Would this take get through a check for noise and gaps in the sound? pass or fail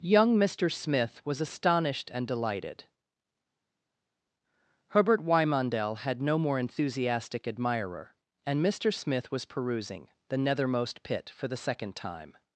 pass